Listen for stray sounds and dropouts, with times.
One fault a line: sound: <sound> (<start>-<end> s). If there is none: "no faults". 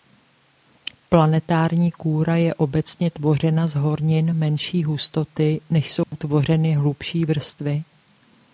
sound: dropout (6.0-6.1 s)